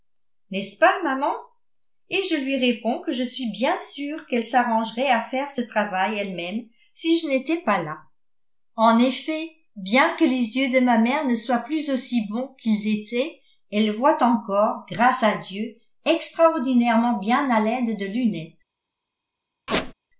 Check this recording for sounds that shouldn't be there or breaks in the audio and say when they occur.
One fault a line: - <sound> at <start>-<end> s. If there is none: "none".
- squeak at 19.7-19.9 s